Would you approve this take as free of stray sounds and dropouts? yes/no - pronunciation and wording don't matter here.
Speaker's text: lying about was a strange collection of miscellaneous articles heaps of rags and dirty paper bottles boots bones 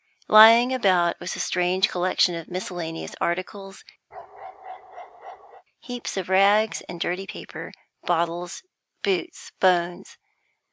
no